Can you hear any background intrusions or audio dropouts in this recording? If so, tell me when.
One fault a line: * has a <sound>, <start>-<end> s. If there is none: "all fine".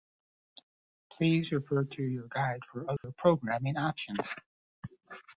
* has a dropout, 3.0-3.0 s